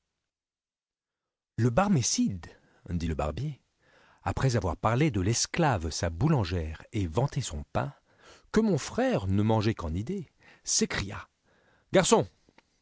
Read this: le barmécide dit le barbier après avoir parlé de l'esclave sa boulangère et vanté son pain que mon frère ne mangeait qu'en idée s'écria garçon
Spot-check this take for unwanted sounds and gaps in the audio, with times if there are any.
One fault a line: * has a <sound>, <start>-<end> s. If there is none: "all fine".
all fine